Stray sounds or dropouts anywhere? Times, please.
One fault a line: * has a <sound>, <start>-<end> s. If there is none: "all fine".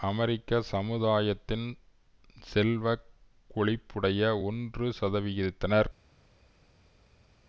all fine